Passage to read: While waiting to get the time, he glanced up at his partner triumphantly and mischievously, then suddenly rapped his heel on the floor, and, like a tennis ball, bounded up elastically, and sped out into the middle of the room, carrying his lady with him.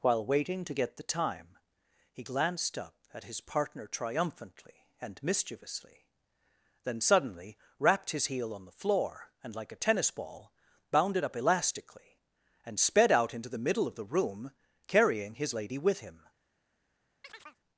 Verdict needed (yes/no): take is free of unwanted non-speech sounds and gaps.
no